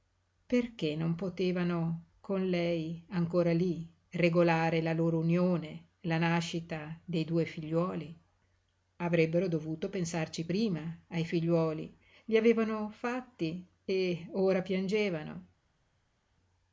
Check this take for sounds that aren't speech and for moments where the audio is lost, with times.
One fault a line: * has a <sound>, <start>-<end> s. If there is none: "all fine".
all fine